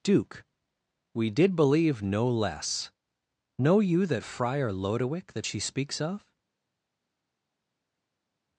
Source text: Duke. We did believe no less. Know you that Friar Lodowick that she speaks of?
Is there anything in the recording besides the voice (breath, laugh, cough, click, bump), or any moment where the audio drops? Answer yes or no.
no